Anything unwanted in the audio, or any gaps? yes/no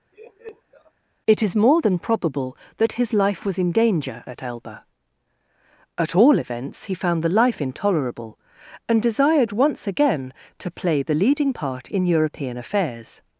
yes